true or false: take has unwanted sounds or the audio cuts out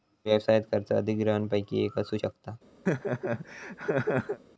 true